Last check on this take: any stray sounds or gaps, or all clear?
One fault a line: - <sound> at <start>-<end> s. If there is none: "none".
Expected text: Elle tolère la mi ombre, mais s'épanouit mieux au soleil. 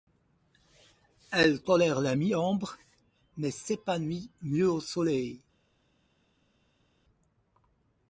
none